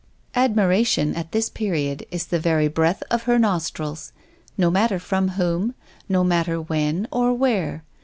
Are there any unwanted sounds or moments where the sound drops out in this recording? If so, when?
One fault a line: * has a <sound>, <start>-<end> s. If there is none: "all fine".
all fine